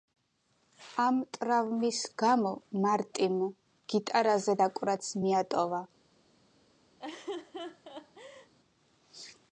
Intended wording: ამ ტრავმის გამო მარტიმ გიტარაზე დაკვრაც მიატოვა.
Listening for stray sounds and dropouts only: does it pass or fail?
fail